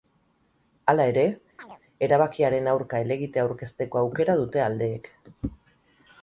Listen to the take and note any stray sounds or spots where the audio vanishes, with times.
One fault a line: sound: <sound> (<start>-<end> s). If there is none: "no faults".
sound: chirp (1.6-1.8 s)